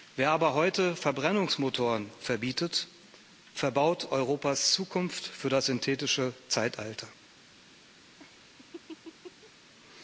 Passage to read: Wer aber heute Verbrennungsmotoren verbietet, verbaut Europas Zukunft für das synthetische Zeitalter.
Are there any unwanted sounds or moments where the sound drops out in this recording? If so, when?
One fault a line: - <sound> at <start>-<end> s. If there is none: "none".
- laugh at 8.2-9.5 s